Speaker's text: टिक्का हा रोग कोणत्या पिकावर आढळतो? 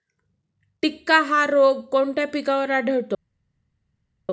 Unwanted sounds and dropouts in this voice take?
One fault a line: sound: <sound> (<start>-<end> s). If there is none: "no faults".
no faults